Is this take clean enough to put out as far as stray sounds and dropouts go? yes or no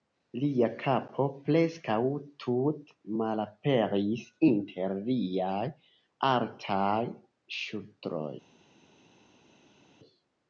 yes